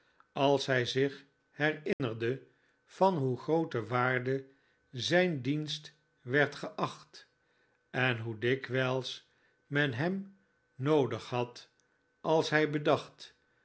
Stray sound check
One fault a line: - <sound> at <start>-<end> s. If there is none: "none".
- dropout at 1.9-2.0 s